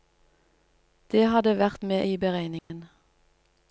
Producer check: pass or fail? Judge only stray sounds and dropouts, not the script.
fail